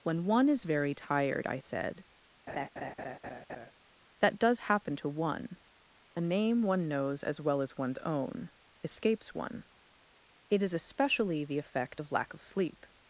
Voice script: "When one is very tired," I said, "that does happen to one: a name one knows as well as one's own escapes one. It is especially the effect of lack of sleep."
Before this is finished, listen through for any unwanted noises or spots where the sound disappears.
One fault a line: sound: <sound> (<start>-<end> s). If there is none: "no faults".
sound: laugh (2.5-3.7 s)